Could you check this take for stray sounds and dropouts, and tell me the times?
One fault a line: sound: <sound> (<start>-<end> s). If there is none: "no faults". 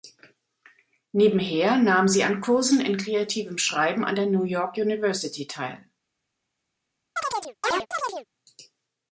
sound: chirp (7.2-8.3 s)